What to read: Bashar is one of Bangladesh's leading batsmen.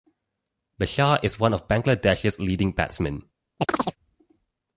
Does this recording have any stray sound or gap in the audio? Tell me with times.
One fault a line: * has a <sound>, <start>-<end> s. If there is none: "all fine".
* has a chirp, 3.6-4.0 s